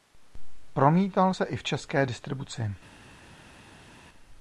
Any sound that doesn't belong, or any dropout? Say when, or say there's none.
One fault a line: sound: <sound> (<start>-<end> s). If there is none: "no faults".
no faults